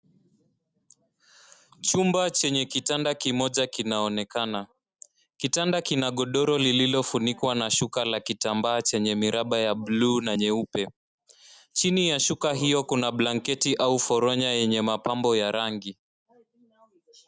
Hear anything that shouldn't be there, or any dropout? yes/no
no